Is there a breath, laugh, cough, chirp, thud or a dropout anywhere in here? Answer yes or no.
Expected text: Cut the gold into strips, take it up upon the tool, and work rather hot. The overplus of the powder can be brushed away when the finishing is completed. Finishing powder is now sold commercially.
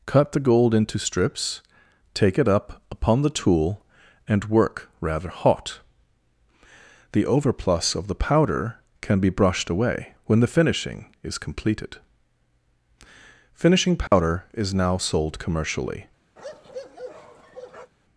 yes